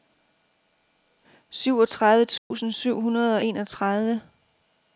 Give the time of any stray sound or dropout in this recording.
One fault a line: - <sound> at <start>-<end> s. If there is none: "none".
- dropout at 2.4-2.5 s